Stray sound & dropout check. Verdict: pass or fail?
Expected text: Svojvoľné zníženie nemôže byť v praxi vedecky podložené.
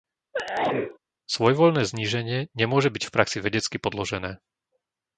fail